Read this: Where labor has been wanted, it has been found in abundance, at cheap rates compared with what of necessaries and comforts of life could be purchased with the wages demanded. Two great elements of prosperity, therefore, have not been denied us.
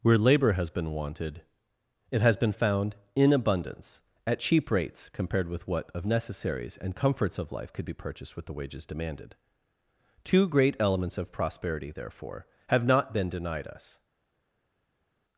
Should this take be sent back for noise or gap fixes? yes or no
no